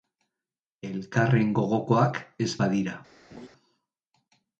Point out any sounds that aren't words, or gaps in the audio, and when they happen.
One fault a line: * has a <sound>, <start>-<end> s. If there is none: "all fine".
* has a laugh, 3.3-3.5 s